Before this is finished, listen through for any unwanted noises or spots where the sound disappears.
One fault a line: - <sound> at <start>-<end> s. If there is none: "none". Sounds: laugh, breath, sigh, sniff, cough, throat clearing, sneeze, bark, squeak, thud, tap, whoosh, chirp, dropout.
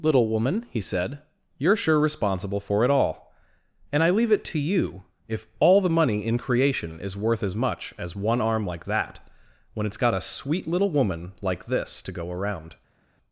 none